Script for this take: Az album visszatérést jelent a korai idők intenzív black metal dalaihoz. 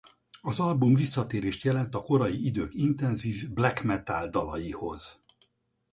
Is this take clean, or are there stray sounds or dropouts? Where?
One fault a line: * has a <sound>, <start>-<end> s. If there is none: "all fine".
all fine